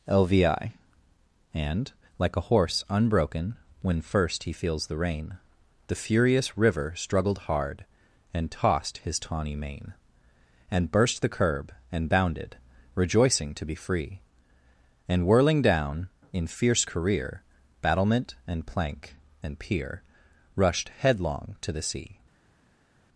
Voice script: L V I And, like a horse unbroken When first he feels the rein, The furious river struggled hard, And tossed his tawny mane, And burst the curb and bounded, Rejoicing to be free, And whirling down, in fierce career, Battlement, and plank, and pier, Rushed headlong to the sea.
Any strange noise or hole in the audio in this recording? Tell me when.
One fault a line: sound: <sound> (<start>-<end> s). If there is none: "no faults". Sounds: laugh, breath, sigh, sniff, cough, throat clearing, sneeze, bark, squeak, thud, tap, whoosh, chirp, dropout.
no faults